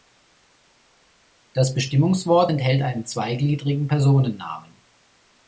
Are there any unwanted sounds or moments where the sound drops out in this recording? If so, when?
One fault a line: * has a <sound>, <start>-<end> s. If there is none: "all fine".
all fine